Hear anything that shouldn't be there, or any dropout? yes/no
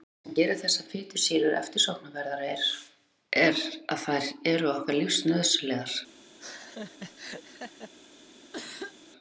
yes